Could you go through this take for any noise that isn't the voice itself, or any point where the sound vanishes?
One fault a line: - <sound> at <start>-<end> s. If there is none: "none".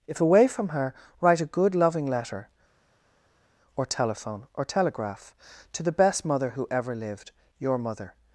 none